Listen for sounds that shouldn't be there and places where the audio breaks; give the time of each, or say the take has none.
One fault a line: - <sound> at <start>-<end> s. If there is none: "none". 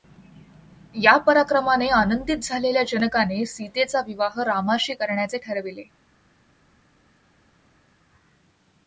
none